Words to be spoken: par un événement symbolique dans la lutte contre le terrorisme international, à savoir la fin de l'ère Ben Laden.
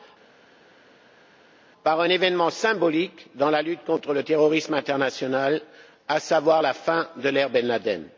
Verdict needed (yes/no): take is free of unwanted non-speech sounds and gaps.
yes